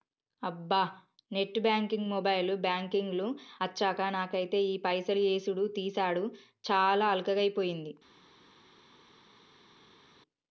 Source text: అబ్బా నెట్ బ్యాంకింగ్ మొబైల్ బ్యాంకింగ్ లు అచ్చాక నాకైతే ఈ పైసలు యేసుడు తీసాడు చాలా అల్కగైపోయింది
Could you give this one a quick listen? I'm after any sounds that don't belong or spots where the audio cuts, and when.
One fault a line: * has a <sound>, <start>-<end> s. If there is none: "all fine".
all fine